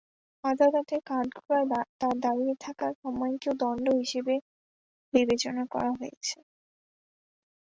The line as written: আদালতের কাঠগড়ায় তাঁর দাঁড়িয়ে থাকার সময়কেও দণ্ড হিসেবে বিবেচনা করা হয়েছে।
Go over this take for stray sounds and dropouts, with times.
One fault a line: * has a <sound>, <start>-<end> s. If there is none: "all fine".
all fine